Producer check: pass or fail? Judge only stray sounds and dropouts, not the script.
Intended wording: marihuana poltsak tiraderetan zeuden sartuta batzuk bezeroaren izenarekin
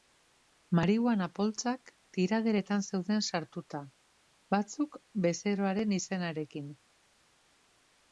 pass